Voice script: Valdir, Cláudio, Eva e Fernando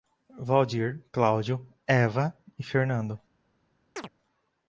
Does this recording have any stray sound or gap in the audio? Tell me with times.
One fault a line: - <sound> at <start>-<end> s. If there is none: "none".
- chirp at 4.0-4.1 s